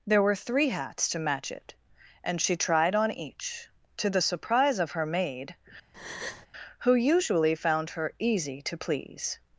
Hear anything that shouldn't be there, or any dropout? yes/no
yes